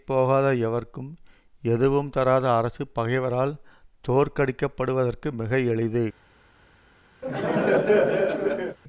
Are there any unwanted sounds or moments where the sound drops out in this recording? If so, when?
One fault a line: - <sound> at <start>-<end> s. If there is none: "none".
- laugh at 7.2-8.8 s